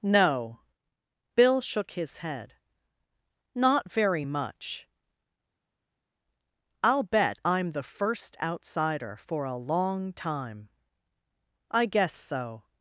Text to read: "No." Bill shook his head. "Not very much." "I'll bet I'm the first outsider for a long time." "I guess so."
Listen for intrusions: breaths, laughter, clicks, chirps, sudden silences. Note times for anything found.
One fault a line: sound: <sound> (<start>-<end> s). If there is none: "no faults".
no faults